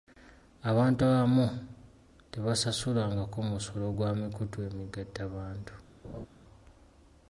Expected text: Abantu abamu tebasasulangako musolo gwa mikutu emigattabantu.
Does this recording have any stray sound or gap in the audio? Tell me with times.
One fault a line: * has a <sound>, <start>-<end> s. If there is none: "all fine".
* has a laugh, 6.0-6.3 s